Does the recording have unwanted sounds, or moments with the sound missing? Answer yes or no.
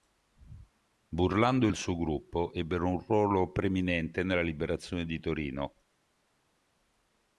no